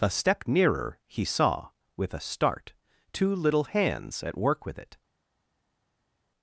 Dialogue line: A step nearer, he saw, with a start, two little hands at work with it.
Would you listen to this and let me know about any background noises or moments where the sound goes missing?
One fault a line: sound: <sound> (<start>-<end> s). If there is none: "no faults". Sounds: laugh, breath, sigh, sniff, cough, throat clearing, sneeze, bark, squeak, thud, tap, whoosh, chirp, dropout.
no faults